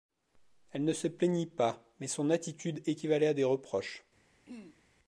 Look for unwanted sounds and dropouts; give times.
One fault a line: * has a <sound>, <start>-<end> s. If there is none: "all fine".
* has a throat clearing, 4.5-4.8 s